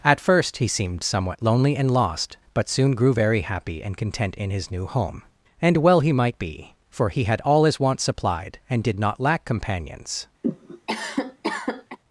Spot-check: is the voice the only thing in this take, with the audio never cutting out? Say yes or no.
no